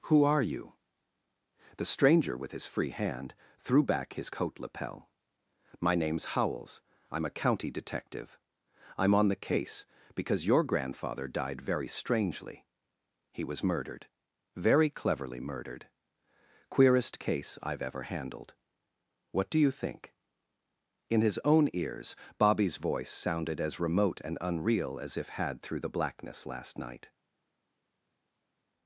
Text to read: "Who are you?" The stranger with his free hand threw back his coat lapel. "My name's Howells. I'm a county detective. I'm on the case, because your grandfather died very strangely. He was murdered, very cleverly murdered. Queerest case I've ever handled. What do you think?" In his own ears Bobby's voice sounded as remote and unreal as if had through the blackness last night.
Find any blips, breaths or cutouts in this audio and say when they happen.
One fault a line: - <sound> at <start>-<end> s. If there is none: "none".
none